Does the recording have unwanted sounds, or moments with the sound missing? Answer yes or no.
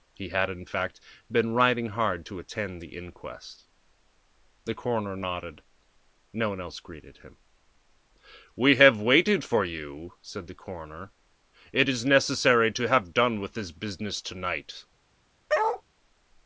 yes